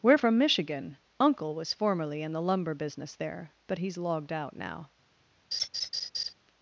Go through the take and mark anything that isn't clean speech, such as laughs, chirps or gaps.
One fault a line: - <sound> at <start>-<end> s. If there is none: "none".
- laugh at 5.5-6.3 s